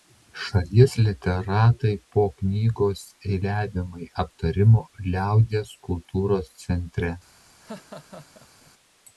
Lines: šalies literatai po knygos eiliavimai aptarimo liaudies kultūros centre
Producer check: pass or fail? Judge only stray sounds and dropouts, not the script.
fail